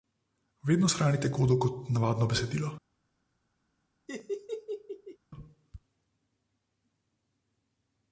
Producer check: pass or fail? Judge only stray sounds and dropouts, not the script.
fail